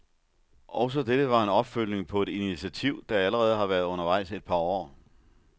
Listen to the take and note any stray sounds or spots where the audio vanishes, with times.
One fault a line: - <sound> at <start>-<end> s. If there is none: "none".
none